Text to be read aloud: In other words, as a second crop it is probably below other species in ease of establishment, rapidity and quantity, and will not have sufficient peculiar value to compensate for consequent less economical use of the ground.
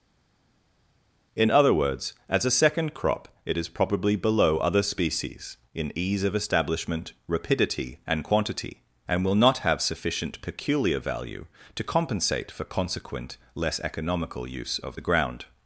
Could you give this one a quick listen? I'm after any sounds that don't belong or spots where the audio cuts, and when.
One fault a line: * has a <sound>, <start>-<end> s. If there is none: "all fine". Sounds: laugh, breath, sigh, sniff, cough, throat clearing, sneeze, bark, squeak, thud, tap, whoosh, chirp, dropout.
all fine